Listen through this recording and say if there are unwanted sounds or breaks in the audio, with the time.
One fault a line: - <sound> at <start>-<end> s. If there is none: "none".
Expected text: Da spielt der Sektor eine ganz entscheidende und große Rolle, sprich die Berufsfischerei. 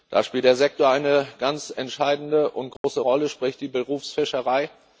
- dropout at 2.8-2.8 s